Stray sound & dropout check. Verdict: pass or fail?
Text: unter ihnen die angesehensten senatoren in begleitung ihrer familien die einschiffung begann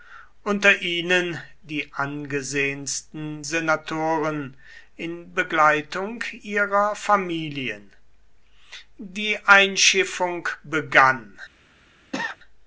fail